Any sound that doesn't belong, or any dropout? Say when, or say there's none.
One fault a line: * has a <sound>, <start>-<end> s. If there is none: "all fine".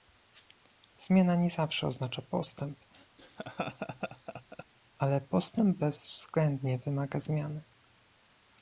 * has a laugh, 3.2-4.6 s